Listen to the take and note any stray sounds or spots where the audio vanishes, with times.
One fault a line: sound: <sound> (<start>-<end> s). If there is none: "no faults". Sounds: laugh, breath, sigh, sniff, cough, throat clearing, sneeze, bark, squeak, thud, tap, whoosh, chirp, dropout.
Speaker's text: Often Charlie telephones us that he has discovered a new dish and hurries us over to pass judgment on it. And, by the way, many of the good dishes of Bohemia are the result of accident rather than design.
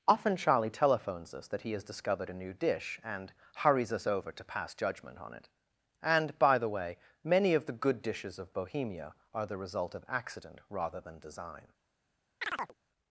sound: chirp (12.4-12.7 s)